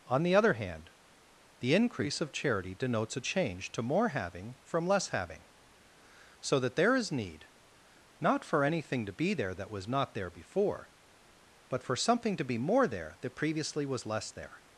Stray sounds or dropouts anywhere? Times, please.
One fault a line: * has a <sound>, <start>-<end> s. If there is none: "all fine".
all fine